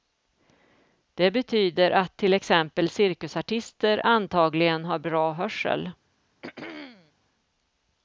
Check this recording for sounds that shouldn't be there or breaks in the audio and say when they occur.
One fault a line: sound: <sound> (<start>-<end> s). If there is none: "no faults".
sound: throat clearing (6.4-7.1 s)